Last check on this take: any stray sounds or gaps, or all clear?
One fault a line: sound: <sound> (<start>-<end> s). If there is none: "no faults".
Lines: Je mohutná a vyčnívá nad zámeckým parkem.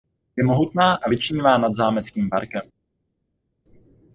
no faults